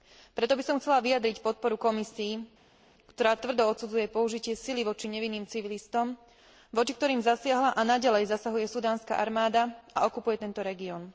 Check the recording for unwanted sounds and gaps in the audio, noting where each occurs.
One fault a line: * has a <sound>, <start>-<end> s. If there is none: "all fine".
all fine